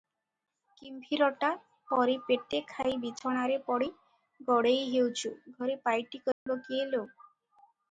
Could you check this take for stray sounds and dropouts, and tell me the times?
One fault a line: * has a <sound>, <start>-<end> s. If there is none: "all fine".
* has a dropout, 6.3-6.5 s